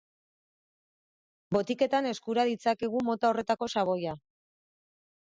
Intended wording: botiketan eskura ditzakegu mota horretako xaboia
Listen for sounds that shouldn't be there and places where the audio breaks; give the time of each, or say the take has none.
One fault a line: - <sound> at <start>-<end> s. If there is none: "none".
none